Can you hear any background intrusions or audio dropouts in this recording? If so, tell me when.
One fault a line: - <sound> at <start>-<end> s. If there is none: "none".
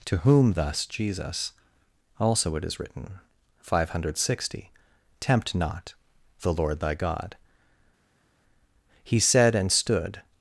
none